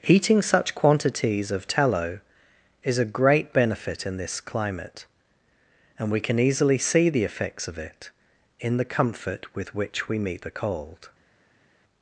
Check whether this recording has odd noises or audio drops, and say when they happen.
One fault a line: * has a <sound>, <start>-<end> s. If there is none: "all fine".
all fine